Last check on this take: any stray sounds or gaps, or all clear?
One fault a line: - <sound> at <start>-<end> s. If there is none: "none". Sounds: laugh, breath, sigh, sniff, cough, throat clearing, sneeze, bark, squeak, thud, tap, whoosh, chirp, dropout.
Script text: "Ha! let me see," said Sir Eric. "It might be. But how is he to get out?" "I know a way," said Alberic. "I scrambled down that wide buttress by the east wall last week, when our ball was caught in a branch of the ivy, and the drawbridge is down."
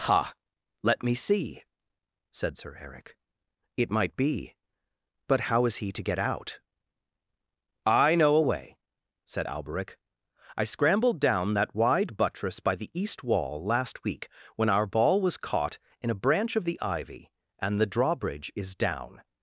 none